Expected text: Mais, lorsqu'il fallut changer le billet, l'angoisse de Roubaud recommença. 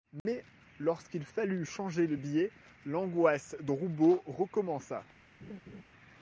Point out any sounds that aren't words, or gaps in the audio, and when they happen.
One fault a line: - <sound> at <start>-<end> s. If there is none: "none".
- dropout at 0.2-0.3 s
- laugh at 5.4-5.8 s